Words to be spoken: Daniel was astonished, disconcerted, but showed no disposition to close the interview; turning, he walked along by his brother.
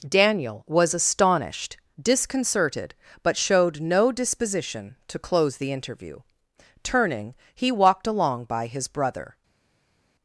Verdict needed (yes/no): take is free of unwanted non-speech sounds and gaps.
yes